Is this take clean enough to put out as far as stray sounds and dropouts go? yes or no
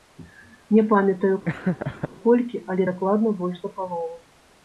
no